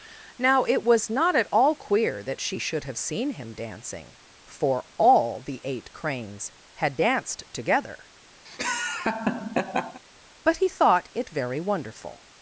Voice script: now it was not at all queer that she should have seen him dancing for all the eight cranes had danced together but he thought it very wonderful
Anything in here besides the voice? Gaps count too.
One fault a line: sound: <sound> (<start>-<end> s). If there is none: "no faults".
sound: laugh (8.4-10.0 s)